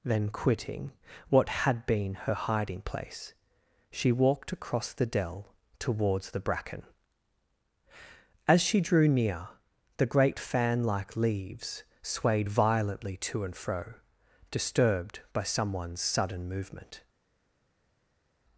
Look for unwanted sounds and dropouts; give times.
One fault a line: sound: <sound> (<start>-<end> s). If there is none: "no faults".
no faults